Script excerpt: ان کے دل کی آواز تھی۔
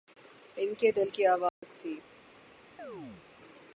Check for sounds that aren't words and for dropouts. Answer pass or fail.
fail